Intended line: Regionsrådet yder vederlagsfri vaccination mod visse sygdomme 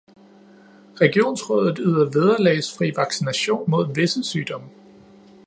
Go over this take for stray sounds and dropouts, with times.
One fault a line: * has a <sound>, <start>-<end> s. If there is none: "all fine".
all fine